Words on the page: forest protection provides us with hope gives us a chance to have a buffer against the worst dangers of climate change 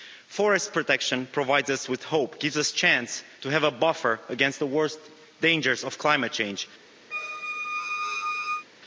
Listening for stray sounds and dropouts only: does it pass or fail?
fail